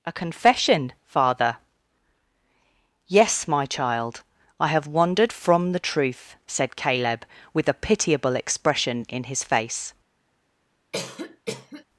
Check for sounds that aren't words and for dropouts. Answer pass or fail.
fail